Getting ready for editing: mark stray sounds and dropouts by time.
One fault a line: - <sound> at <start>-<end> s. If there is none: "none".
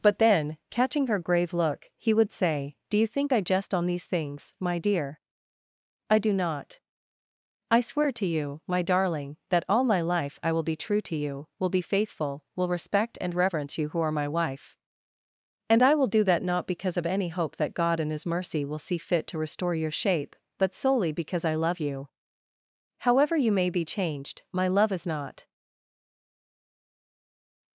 none